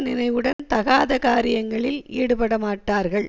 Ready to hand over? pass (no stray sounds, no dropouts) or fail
fail